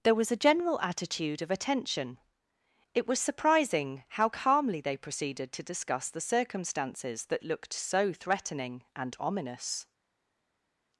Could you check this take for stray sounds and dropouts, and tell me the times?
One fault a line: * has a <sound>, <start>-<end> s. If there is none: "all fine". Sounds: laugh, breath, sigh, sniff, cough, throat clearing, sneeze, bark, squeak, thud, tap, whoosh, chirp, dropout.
all fine